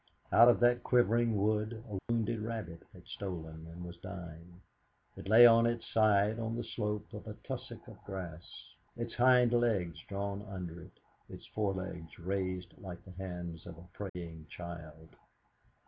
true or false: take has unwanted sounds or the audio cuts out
true